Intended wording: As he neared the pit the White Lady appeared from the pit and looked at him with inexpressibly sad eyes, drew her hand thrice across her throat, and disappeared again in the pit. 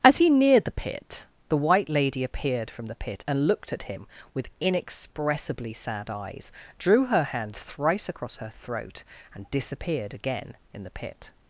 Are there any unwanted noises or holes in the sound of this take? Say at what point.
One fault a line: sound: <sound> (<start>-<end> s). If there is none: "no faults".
no faults